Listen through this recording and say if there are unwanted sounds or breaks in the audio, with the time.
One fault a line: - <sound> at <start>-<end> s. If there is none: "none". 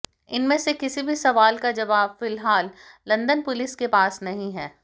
none